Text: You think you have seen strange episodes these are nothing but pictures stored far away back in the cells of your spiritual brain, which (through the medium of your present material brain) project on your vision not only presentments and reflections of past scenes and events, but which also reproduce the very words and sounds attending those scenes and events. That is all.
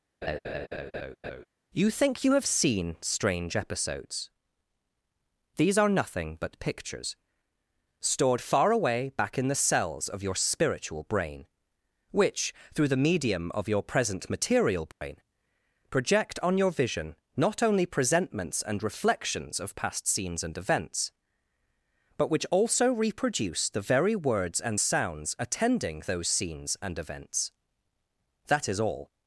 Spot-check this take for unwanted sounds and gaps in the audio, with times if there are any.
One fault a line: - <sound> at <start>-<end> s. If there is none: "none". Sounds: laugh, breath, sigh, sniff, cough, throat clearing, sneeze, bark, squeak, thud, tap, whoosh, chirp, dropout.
- laugh at 0.2-1.5 s
- dropout at 14.9-15.0 s